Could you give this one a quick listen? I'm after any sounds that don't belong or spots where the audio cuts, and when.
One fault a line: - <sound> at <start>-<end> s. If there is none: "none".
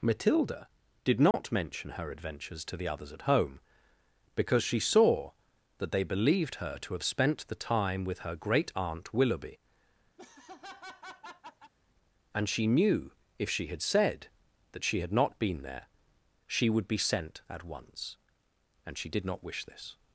- dropout at 1.3-1.3 s
- laugh at 10.2-11.7 s